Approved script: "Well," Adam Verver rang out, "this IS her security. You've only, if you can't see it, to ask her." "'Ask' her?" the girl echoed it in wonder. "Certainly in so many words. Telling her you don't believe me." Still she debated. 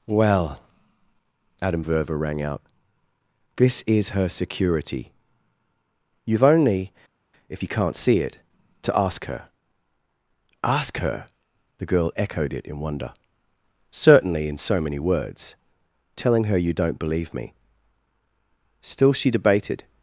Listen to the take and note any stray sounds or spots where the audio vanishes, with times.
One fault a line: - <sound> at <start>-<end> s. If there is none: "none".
none